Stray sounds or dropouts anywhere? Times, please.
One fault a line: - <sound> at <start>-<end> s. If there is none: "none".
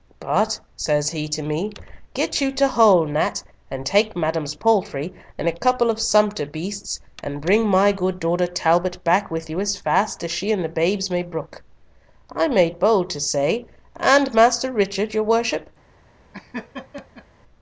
- laugh at 16.3-17.3 s